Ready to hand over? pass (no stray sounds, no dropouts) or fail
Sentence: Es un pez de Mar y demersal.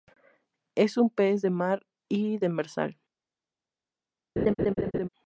fail